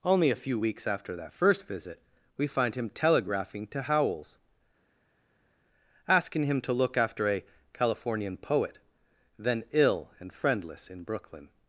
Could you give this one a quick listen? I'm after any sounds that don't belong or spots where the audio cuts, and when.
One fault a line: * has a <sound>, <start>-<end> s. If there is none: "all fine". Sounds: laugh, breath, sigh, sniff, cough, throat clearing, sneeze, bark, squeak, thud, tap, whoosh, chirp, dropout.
all fine